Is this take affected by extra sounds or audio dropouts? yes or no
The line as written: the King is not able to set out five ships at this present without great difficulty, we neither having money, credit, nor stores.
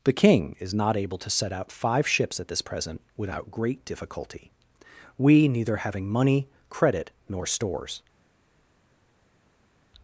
no